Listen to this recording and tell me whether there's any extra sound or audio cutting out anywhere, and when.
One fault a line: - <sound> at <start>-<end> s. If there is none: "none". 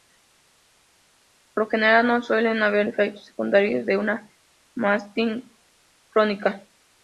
none